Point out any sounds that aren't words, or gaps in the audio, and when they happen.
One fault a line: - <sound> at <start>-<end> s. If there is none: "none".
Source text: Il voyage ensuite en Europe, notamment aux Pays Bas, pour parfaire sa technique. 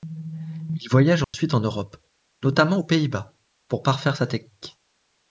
- dropout at 1.2-1.3 s